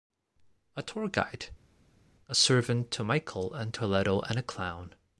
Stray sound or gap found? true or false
false